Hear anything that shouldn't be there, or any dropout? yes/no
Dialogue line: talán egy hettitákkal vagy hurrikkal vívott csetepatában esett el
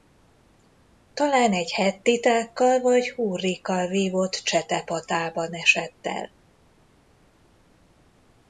no